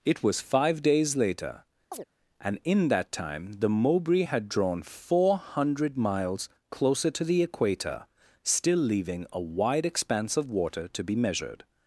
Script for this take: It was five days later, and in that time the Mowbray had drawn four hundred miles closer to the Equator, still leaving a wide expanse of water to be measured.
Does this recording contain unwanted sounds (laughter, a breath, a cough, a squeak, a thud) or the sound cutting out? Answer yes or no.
yes